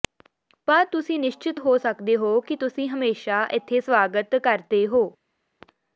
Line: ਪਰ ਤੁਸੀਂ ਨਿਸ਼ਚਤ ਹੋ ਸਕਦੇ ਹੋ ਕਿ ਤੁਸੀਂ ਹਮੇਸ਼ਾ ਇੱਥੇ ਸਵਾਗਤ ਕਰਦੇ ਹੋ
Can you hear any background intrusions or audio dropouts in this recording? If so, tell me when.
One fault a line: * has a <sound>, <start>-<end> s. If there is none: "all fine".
all fine